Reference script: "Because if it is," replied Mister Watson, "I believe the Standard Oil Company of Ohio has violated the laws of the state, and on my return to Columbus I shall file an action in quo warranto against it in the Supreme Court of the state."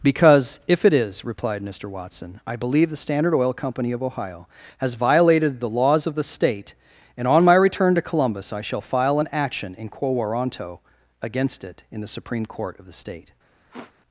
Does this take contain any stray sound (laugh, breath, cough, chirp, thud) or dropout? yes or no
yes